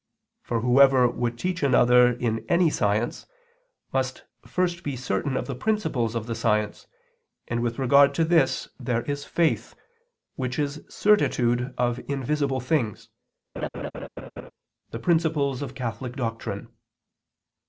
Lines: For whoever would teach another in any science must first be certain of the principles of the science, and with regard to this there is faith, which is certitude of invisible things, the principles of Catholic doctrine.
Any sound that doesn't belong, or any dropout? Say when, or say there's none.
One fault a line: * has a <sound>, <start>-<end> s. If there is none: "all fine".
* has a laugh, 13.6-14.5 s